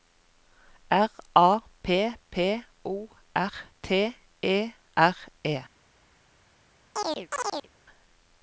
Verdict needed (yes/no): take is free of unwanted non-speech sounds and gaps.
no